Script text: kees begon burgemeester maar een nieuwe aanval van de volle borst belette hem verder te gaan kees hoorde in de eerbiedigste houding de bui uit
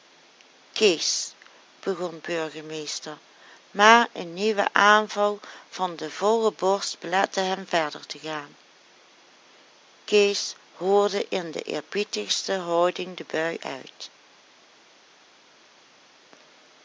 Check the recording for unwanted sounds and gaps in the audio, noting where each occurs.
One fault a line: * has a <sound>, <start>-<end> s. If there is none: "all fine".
all fine